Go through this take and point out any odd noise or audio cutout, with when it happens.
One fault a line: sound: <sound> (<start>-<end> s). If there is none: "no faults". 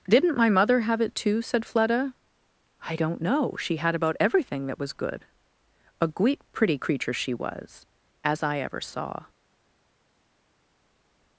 no faults